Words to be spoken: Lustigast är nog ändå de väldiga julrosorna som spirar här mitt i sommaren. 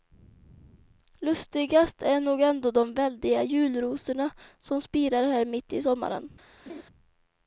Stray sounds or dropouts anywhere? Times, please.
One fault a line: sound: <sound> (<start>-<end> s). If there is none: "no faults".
sound: laugh (6.7-6.8 s)